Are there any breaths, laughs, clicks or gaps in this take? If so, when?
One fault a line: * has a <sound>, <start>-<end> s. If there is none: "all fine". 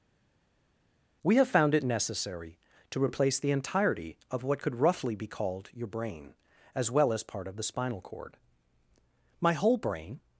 all fine